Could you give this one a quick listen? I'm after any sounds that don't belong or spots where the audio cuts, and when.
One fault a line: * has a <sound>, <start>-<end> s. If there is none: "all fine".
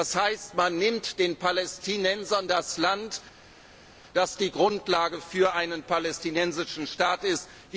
all fine